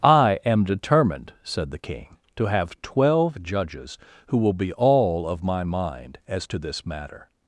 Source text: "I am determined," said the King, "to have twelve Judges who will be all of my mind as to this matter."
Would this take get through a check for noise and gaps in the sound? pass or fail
pass